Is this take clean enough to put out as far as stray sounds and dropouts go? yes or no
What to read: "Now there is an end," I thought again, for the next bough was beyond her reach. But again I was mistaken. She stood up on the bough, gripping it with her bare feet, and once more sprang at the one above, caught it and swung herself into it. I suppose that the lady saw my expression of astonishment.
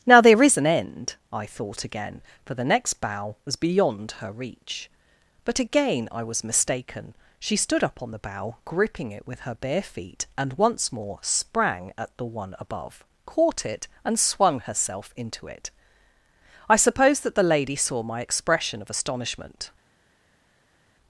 yes